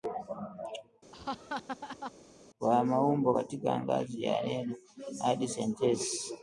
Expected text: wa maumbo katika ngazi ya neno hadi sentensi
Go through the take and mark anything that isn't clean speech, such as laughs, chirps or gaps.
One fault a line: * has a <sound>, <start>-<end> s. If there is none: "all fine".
* has a laugh, 1.1-2.1 s